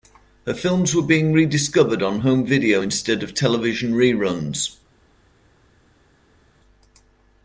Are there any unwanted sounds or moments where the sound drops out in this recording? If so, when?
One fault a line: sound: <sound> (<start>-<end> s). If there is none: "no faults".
no faults